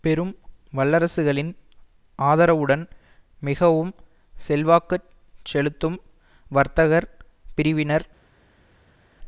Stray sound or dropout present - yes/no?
no